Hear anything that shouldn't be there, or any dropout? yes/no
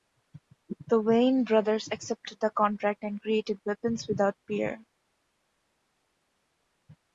no